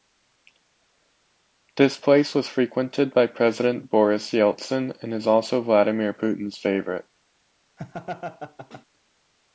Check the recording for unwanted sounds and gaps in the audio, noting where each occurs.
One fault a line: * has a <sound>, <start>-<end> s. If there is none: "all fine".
* has a laugh, 7.8-8.8 s